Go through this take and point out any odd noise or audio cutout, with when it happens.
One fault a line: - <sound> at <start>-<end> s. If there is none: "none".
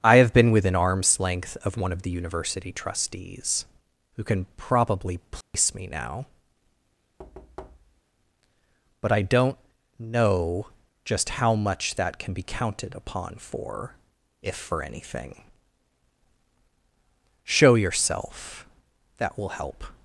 - dropout at 5.4-5.5 s
- thud at 7.2-8.0 s